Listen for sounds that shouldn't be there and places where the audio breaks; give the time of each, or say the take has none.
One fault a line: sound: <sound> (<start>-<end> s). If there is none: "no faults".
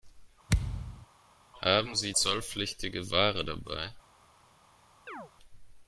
sound: thud (0.5-1.1 s)
sound: chirp (5.1-5.3 s)